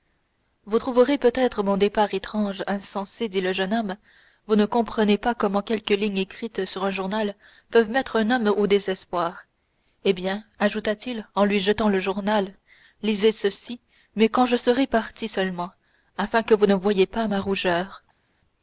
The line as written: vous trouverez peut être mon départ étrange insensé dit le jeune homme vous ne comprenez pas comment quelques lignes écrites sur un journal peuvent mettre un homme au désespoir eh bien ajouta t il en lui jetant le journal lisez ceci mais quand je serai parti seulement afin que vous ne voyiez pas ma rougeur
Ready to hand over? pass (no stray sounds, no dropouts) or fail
pass